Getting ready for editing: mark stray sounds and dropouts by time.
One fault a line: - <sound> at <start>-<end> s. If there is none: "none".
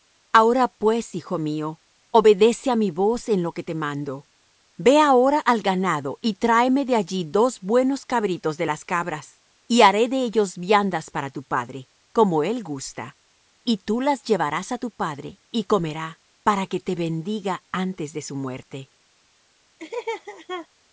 - laugh at 19.8-20.7 s